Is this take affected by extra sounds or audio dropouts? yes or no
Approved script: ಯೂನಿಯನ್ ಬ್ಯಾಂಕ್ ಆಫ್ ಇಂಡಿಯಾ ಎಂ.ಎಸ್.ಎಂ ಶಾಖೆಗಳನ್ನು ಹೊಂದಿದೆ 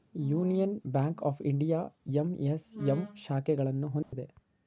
yes